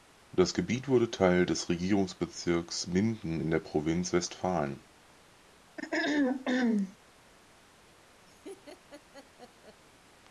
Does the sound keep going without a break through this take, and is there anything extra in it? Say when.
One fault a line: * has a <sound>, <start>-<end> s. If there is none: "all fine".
* has a throat clearing, 5.8-7.0 s
* has a laugh, 8.3-9.8 s